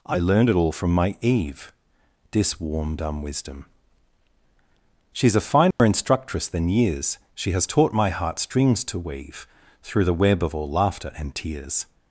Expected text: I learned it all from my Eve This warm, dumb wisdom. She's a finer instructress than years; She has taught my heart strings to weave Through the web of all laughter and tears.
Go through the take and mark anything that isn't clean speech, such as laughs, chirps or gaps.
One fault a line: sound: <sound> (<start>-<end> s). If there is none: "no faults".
sound: dropout (5.7-5.8 s)